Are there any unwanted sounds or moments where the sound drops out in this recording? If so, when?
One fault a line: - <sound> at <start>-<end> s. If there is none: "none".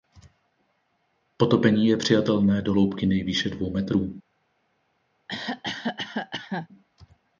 - cough at 5.3-6.7 s